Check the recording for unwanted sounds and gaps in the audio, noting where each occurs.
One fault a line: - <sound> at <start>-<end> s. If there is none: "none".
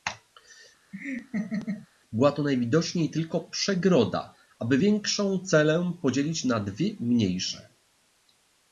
- laugh at 0.9-1.9 s